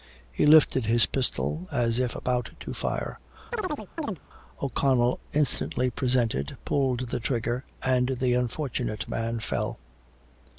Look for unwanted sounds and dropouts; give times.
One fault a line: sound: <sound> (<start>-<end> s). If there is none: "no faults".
sound: chirp (3.5-4.2 s)